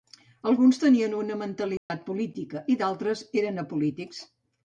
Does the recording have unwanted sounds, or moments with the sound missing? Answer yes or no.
yes